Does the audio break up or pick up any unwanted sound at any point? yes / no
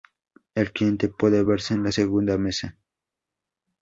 no